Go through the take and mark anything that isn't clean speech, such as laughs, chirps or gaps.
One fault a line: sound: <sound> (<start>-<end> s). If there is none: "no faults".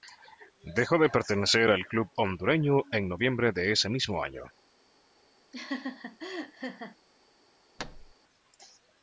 sound: laugh (5.5-7.0 s)
sound: thud (7.8-8.1 s)